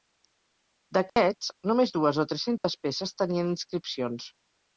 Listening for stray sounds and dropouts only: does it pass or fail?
fail